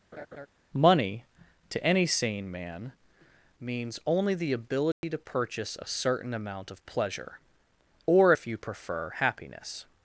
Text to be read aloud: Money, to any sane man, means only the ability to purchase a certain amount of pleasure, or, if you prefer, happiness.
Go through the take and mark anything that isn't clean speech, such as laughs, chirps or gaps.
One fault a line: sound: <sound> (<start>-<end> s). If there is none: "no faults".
sound: laugh (0.1-0.5 s)
sound: dropout (4.9-5.0 s)